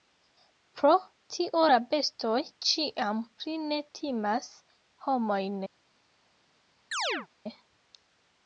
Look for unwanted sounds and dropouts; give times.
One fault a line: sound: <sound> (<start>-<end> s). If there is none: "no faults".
sound: chirp (6.9-7.3 s)